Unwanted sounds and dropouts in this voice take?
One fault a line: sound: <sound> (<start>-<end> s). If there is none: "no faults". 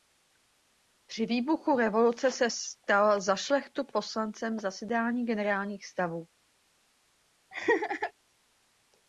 sound: laugh (7.5-8.1 s)